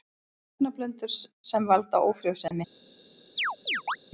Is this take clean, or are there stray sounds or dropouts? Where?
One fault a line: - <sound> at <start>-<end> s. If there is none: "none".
- dropout at 2.5-2.5 s
- chirp at 3.4-4.0 s